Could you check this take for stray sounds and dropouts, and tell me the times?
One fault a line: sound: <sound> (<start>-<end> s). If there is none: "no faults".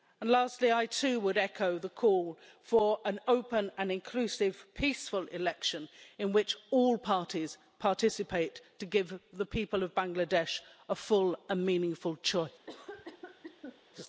sound: cough (12.7-13.8 s)